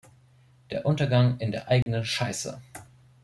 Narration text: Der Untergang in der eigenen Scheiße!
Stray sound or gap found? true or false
true